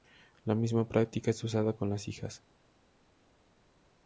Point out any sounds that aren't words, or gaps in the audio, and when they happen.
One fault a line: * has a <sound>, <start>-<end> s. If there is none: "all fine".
all fine